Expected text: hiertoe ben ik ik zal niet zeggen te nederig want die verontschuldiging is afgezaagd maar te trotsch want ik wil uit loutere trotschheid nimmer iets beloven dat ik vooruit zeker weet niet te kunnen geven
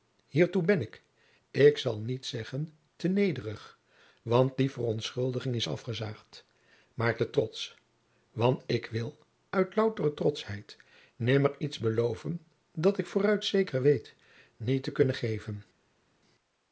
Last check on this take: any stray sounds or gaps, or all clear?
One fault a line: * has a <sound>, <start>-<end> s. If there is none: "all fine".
all fine